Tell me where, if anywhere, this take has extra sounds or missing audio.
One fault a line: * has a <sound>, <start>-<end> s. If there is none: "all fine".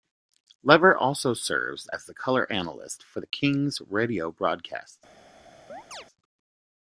* has a chirp, 5.7-6.1 s